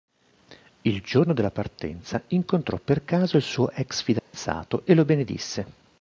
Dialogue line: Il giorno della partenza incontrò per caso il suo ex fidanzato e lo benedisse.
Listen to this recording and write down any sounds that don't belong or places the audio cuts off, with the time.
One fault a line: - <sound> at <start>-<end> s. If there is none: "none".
- dropout at 4.2-4.3 s